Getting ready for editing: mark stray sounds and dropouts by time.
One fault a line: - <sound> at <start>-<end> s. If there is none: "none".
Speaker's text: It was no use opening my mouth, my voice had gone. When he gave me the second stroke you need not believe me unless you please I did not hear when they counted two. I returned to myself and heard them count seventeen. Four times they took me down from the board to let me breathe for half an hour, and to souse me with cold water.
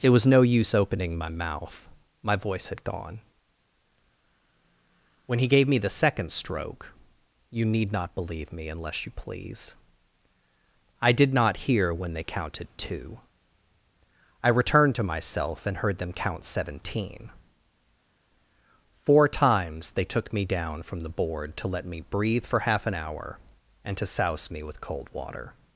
none